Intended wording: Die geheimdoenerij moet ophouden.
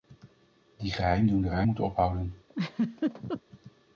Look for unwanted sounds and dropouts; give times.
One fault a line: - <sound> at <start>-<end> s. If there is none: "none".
- laugh at 2.5-3.4 s